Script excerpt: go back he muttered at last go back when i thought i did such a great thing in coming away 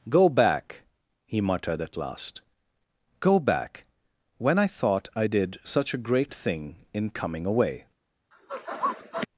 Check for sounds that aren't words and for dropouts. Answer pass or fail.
fail